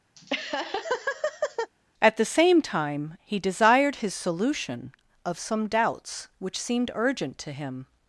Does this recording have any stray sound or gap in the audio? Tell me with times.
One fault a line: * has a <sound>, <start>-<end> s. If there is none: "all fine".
* has a laugh, 0.2-1.7 s